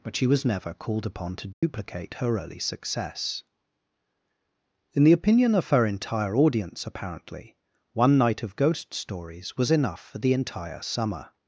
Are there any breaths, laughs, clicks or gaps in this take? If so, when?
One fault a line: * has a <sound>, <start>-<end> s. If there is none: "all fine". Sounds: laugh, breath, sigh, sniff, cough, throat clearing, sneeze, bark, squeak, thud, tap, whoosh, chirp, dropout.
* has a dropout, 1.5-1.6 s